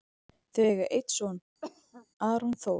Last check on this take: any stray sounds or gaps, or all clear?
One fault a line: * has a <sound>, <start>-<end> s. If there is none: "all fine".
* has a cough, 1.6-2.1 s